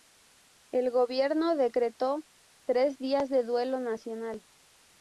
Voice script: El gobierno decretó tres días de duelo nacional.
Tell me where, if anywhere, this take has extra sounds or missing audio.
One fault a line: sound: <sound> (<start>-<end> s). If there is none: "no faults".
no faults